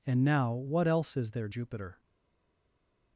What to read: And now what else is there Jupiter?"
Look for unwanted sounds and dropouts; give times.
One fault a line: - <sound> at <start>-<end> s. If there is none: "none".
none